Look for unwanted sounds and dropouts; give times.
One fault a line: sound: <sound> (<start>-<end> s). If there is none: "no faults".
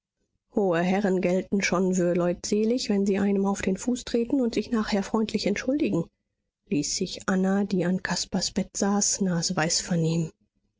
no faults